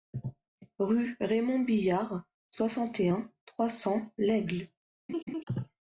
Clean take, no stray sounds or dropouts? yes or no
no